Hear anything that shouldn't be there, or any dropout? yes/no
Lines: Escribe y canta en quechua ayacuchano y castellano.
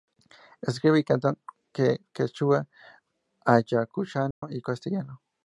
yes